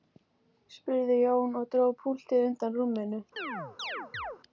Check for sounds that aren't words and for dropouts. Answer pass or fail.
fail